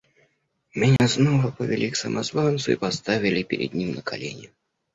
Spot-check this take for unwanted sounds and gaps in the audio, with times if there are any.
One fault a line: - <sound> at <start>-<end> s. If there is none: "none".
- dropout at 1.0-1.0 s